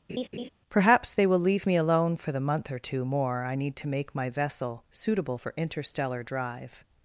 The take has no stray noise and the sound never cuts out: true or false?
false